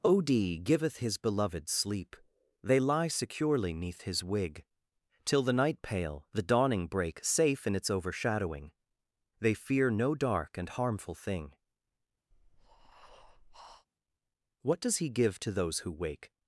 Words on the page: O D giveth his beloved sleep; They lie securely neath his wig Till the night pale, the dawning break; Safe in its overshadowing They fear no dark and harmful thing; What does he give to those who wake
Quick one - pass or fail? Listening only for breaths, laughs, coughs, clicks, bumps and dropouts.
fail